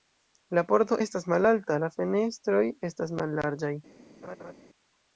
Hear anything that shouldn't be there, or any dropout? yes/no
yes